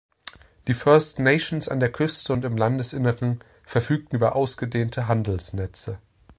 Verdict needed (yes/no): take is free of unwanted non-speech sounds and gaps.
yes